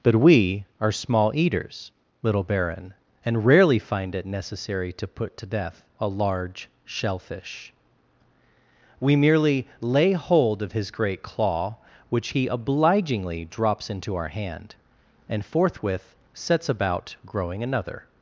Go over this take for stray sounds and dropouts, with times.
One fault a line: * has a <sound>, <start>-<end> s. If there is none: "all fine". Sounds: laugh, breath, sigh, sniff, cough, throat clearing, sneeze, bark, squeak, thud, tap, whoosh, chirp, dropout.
all fine